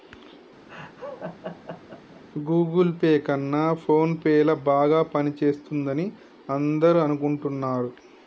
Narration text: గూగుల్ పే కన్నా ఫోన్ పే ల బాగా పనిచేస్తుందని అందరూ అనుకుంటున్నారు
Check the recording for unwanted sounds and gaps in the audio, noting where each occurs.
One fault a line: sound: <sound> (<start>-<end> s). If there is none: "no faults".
sound: laugh (0.7-2.2 s)